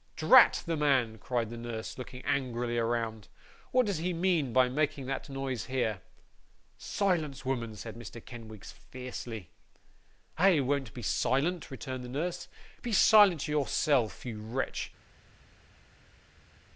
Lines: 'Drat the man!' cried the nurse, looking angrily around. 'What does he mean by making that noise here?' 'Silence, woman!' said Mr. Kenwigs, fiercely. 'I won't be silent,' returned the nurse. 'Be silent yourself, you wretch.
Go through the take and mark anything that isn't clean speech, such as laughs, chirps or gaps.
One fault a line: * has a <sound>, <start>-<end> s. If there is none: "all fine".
all fine